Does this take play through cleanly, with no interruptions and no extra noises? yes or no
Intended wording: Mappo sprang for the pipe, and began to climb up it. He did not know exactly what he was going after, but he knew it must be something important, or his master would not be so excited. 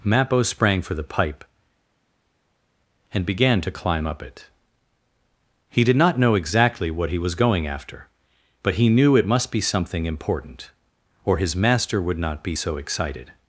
yes